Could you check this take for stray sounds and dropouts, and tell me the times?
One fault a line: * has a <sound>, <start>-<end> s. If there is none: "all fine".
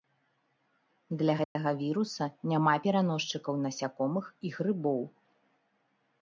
* has a dropout, 1.4-1.6 s